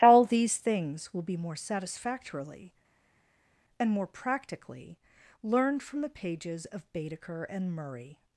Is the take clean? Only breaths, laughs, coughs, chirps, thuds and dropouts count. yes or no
yes